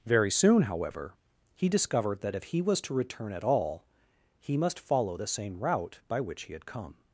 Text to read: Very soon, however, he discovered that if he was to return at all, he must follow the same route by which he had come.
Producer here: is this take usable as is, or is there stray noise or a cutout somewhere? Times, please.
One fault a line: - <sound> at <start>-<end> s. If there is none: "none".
none